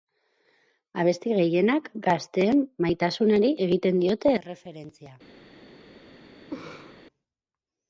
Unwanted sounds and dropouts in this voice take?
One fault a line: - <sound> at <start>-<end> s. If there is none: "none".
- laugh at 6.5-7.0 s